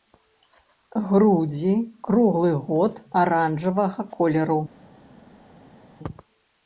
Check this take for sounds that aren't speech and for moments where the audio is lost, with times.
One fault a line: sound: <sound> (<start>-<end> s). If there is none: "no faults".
no faults